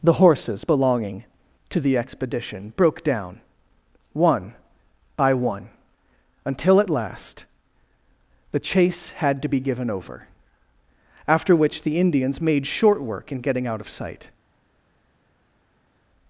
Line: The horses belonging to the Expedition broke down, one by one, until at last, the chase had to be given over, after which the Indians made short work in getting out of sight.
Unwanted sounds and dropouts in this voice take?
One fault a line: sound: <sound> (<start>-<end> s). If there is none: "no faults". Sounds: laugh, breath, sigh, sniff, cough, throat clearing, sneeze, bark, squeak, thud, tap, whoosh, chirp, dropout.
no faults